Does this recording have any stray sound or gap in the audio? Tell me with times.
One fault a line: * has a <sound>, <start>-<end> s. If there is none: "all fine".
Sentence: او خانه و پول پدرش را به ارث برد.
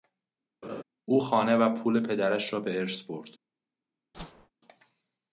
* has a laugh, 0.6-0.8 s
* has a whoosh, 4.1-4.5 s